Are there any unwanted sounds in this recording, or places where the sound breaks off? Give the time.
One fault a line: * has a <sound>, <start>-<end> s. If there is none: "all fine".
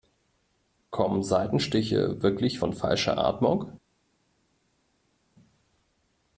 all fine